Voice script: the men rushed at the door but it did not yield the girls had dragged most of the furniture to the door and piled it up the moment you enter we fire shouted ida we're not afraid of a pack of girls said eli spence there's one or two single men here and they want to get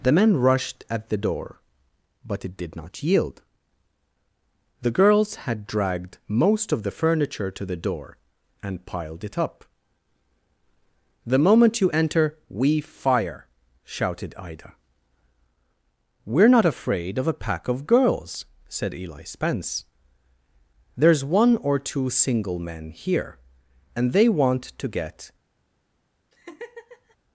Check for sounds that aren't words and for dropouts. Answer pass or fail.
fail